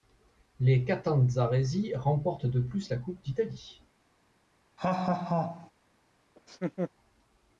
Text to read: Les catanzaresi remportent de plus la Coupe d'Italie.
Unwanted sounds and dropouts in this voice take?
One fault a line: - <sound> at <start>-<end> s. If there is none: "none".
- laugh at 4.8-5.7 s
- laugh at 6.4-6.9 s